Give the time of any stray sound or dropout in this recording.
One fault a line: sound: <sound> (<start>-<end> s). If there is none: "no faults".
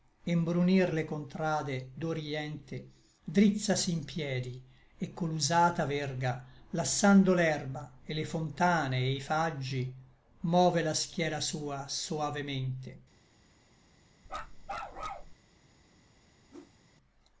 sound: bark (14.3-15.3 s)
sound: whoosh (16.5-16.8 s)